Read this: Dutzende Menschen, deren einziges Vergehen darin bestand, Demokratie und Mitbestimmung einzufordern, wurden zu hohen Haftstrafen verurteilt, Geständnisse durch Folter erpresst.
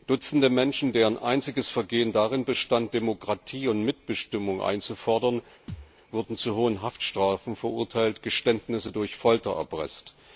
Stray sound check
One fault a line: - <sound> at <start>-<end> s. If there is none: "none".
- thud at 5.7-5.9 s